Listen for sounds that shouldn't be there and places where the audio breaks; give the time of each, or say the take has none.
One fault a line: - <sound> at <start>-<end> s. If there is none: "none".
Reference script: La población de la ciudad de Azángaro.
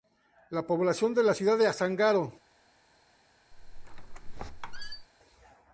- squeak at 3.5-5.1 s